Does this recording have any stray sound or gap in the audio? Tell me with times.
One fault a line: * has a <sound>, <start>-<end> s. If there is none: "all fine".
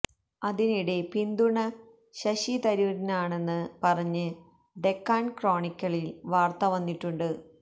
all fine